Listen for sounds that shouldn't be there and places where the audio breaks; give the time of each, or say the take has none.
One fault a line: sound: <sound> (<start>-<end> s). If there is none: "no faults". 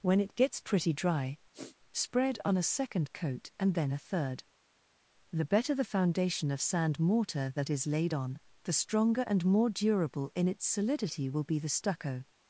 sound: sniff (1.5-1.8 s)